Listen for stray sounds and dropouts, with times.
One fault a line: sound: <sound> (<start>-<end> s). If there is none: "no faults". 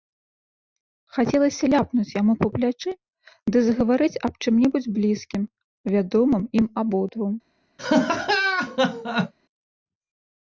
sound: laugh (7.8-9.3 s)